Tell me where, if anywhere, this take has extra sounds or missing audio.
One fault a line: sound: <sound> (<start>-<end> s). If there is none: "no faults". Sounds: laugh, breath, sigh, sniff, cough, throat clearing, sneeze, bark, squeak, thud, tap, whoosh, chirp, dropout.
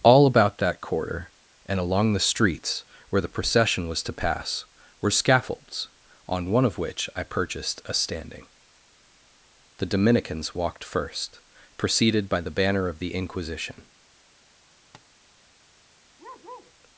sound: tap (14.9-15.1 s)
sound: bark (16.2-16.7 s)